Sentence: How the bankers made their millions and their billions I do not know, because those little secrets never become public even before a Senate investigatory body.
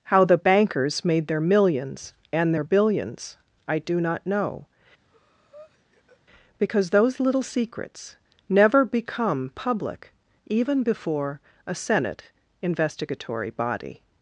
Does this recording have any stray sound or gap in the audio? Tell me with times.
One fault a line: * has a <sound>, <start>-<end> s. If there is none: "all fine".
* has a breath, 5.0-6.2 s